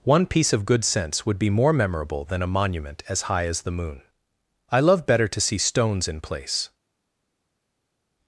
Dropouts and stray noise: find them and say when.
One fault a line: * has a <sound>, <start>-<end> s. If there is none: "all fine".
all fine